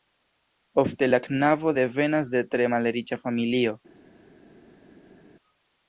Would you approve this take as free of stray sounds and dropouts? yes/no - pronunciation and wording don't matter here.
yes